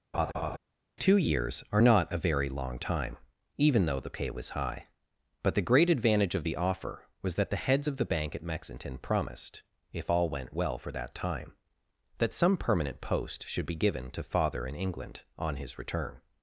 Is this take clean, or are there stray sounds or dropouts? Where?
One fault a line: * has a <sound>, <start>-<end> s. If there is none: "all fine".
* has a laugh, 0.1-0.6 s